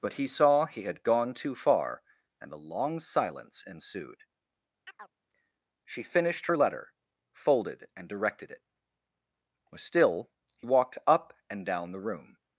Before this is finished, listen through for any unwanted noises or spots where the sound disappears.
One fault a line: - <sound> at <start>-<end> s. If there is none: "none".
- chirp at 4.9-5.1 s